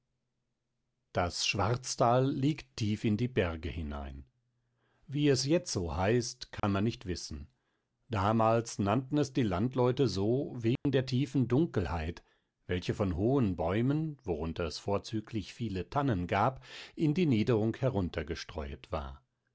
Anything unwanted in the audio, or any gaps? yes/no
yes